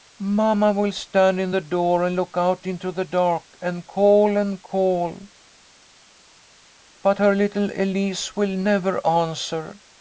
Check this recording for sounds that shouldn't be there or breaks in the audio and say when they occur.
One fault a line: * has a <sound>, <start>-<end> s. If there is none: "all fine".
all fine